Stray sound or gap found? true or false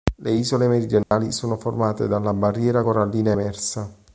true